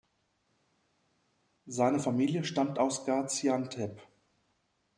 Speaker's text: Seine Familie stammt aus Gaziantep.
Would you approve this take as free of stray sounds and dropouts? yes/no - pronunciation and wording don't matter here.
yes